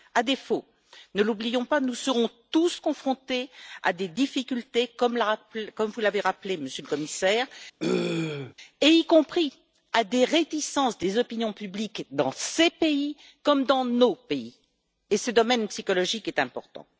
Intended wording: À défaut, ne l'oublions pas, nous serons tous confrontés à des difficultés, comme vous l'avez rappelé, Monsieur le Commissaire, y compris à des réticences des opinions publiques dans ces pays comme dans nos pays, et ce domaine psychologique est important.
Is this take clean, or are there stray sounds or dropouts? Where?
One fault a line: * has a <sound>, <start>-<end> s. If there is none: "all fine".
* has a throat clearing, 7.8-8.5 s